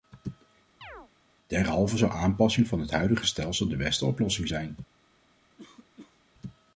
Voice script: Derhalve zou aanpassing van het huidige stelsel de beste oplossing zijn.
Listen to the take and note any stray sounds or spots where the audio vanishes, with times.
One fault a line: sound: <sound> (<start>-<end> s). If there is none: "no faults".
sound: chirp (0.8-1.1 s)
sound: cough (5.6-6.2 s)